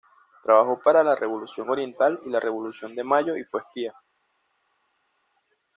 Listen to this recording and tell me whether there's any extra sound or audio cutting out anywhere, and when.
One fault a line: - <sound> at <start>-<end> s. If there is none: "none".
none